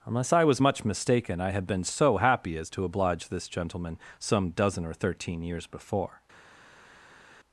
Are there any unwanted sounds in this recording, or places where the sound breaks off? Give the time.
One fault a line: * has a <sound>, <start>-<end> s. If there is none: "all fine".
all fine